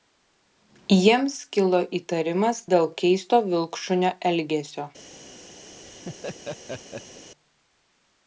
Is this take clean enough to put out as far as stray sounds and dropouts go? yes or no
no